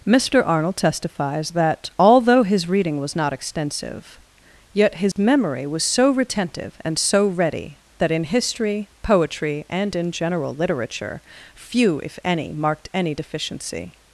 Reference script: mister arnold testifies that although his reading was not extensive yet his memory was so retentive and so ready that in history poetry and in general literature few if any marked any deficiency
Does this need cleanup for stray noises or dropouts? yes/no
yes